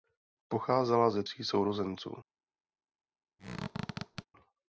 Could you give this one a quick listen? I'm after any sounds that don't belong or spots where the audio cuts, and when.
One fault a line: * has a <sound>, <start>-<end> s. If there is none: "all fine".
* has a squeak, 3.4-4.3 s